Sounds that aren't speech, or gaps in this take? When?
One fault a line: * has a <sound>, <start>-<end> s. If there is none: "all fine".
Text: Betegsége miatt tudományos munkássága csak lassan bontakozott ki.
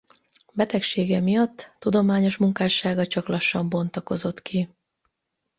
all fine